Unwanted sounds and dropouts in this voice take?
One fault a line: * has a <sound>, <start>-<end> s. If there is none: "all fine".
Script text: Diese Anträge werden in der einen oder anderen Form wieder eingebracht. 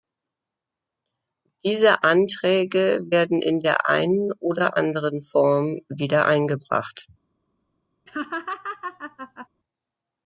* has a laugh, 8.1-9.5 s